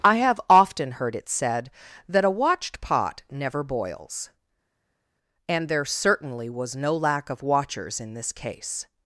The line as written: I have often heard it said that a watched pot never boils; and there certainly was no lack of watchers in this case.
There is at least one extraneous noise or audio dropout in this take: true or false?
false